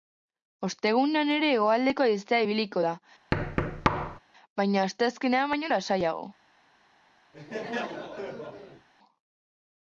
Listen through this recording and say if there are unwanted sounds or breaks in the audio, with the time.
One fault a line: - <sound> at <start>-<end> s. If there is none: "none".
- thud at 3.3-4.2 s
- laugh at 7.3-8.9 s